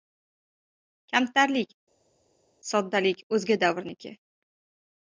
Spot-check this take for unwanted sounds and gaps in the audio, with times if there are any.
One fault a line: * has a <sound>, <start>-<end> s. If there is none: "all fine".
all fine